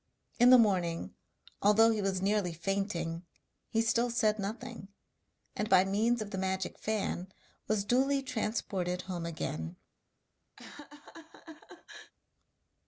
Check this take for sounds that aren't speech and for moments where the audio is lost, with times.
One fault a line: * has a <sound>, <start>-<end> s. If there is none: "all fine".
* has a laugh, 10.6-12.1 s